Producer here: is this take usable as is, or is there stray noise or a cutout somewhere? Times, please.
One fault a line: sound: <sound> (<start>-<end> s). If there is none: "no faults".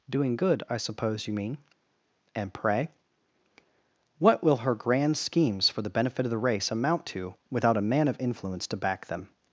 no faults